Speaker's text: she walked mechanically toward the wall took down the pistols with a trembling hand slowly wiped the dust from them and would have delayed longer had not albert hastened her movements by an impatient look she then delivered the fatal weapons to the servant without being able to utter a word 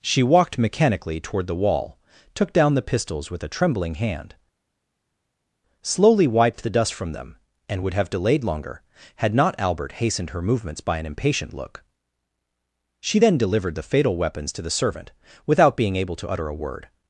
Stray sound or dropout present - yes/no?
no